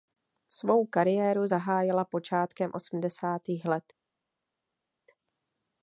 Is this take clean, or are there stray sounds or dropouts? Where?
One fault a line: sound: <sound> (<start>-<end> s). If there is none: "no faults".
no faults